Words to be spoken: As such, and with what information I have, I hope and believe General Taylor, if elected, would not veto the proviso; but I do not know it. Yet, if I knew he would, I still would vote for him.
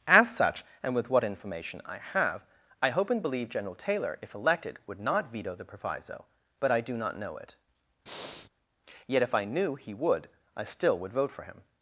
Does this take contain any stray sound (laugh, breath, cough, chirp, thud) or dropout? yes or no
yes